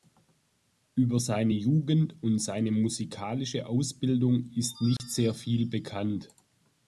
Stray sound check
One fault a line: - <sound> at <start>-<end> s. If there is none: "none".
- dropout at 5.0-5.0 s